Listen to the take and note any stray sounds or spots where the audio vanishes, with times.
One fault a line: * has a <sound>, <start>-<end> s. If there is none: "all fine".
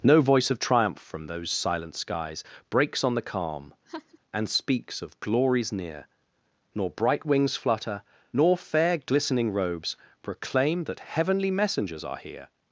* has a laugh, 3.9-4.2 s